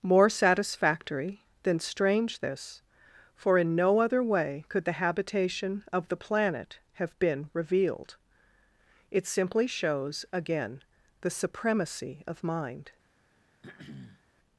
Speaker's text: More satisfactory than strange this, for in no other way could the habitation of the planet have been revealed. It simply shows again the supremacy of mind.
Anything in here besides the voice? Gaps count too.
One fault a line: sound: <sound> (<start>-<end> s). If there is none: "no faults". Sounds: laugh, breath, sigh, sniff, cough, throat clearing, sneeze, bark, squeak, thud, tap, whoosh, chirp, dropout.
sound: throat clearing (13.6-14.2 s)